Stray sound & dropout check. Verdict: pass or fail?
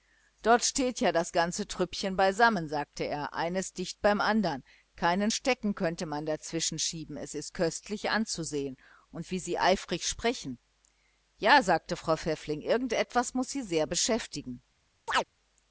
fail